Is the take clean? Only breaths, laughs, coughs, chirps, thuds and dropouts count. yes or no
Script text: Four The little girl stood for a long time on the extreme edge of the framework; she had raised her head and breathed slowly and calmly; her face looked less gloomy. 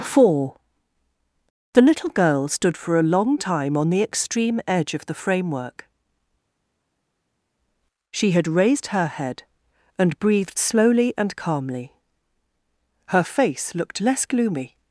yes